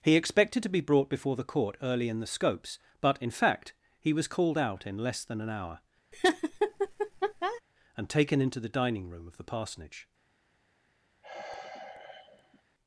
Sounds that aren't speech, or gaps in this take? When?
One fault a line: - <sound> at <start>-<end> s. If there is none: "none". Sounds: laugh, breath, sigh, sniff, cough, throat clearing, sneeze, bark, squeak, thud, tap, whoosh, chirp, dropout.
- laugh at 6.1-7.6 s
- sigh at 11.2-12.6 s